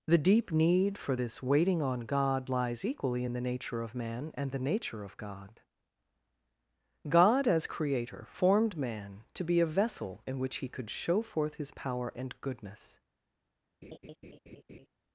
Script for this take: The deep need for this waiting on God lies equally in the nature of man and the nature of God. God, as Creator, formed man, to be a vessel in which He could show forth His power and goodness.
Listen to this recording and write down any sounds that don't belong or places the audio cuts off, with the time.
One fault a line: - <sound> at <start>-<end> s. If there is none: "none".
- laugh at 13.8-14.9 s